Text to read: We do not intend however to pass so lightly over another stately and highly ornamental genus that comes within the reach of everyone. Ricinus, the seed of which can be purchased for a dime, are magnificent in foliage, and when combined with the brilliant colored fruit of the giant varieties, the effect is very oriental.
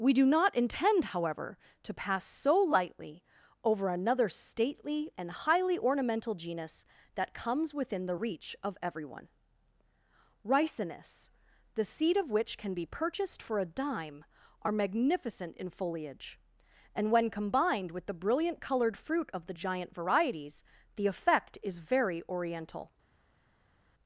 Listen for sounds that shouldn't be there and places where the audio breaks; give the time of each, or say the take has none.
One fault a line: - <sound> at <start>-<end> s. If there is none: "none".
none